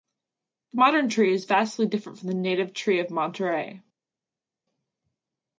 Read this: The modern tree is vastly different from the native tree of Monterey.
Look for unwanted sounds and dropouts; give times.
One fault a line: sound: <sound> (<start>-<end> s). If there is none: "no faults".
no faults